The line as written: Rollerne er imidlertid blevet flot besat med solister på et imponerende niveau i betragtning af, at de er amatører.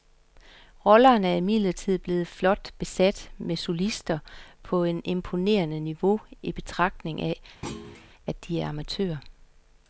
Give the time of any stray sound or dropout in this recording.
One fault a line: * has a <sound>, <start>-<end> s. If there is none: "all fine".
* has a thud, 7.6-8.1 s